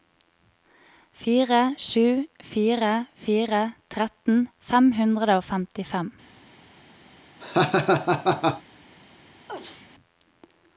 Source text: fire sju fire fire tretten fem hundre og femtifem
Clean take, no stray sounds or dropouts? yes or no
no